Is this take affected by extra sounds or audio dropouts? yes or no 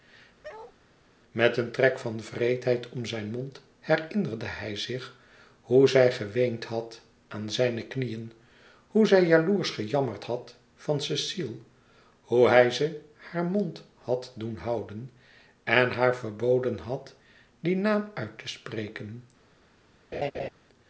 yes